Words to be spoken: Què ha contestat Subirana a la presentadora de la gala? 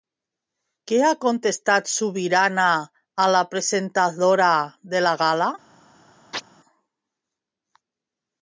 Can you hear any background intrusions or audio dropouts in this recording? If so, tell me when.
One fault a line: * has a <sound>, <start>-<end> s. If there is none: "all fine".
* has a chirp, 6.3-6.4 s